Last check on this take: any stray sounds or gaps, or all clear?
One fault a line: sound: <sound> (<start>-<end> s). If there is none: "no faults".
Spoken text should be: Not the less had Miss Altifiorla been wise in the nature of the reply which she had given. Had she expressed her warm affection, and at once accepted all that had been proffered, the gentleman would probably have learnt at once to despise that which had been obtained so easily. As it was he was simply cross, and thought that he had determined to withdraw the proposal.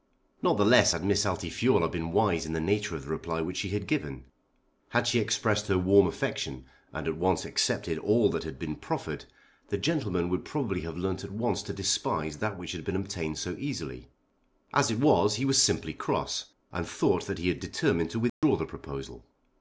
sound: dropout (18.3-18.4 s)